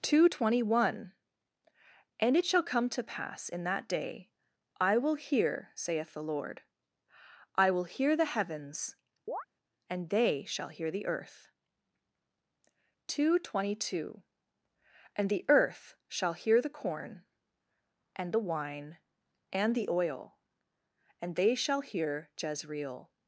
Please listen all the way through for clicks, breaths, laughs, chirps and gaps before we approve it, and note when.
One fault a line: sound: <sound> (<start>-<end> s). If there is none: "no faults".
sound: chirp (9.3-9.5 s)